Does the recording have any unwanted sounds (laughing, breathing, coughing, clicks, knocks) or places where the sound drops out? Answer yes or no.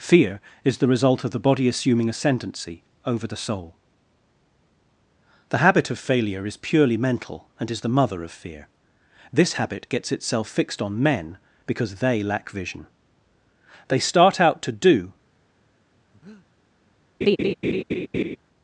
yes